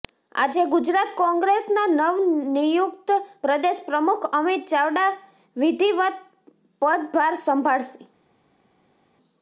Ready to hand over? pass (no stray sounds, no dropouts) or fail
pass